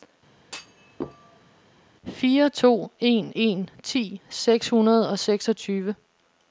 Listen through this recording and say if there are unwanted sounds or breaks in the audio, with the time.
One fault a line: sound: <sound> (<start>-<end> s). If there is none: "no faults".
sound: thud (0.4-1.6 s)